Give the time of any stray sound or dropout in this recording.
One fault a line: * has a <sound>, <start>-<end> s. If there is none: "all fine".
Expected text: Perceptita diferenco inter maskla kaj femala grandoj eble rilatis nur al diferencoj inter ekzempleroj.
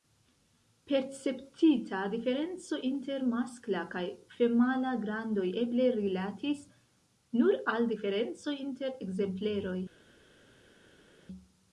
all fine